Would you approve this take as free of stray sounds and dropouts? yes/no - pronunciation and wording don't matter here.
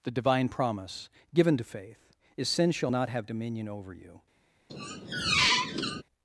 no